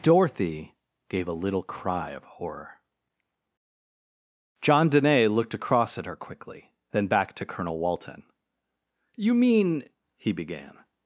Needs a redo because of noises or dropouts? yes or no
no